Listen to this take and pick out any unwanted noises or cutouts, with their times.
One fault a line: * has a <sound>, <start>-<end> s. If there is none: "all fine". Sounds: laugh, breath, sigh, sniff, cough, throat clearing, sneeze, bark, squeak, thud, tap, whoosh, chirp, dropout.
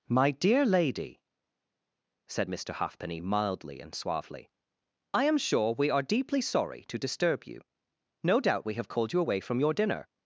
all fine